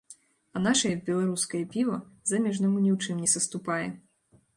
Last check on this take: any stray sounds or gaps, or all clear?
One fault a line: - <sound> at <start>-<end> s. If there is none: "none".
none